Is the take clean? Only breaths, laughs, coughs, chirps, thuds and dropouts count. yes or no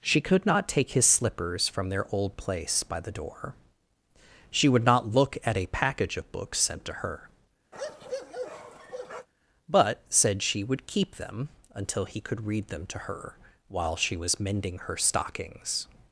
no